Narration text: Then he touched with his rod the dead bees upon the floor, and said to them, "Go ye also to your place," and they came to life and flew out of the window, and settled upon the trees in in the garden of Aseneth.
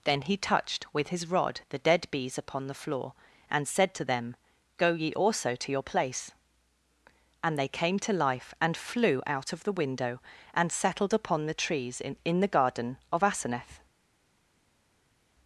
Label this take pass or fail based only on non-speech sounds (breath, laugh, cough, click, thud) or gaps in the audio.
pass